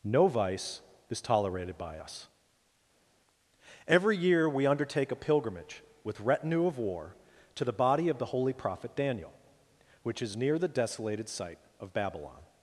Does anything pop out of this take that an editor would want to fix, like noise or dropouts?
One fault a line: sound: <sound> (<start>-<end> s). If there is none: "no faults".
no faults